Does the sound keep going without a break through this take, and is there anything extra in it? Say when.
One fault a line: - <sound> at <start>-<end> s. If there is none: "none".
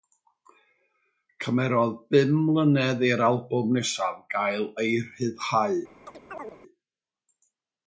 - chirp at 6.1-6.6 s